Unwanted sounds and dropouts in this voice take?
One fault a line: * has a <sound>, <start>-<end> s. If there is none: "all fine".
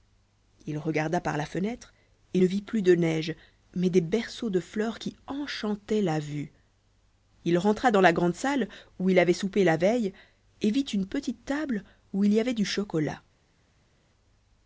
all fine